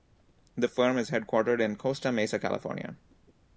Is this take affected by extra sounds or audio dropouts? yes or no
no